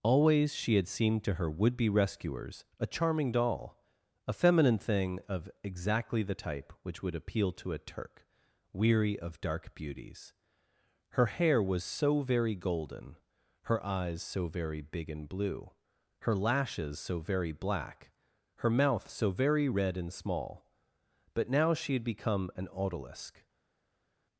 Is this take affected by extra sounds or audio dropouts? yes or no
no